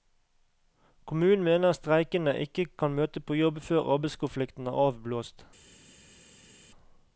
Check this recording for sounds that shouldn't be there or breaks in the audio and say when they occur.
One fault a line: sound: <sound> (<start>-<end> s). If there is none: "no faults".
no faults